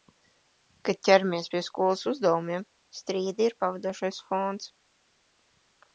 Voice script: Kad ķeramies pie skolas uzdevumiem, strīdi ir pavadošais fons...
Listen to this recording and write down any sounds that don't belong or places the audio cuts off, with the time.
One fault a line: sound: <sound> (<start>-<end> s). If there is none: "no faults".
no faults